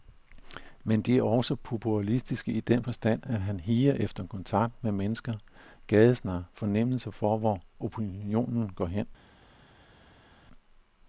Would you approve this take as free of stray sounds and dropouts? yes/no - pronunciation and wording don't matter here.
yes